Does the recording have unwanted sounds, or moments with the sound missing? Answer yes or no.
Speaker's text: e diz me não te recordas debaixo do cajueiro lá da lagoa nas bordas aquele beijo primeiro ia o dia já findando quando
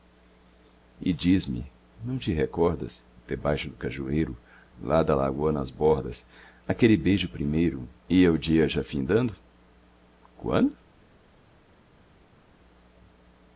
no